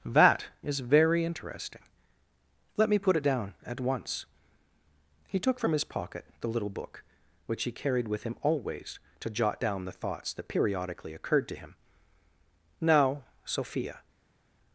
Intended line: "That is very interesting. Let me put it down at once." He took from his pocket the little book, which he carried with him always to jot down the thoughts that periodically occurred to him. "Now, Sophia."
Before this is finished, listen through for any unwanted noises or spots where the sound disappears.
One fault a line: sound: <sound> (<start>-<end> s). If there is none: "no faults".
no faults